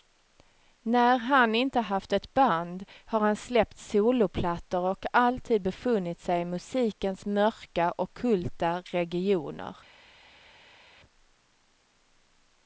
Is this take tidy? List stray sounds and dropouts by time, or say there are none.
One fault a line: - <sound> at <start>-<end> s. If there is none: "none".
none